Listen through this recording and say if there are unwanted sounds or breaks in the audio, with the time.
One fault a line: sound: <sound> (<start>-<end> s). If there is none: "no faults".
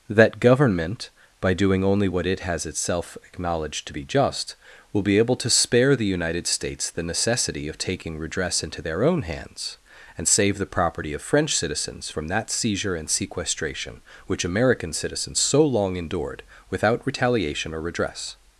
no faults